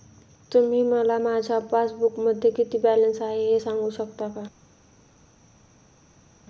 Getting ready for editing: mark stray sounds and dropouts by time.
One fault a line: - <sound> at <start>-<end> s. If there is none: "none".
none